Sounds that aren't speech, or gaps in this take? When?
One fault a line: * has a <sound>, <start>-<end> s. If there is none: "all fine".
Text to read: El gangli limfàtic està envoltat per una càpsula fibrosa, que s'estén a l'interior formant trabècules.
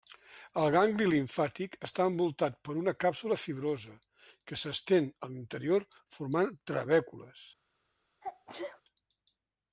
* has a sneeze, 8.2-8.8 s